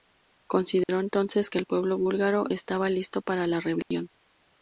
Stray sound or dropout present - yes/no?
yes